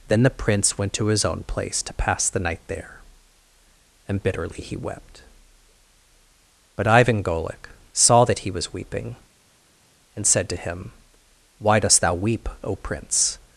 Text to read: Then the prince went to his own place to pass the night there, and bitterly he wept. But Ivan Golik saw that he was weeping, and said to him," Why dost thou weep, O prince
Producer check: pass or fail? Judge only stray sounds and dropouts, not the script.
pass